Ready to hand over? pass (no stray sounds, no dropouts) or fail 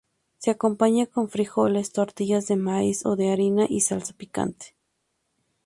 pass